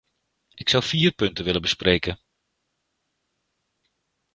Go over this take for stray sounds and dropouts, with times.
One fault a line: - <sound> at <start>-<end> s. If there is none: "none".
none